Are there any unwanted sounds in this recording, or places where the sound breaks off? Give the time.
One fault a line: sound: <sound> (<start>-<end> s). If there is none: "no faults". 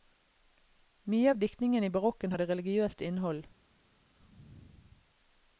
no faults